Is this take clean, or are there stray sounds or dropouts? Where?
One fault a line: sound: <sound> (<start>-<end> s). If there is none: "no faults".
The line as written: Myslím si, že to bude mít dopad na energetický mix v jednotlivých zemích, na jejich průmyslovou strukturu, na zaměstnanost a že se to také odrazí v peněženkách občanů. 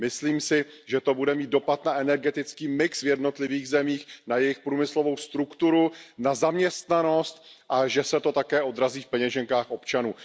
no faults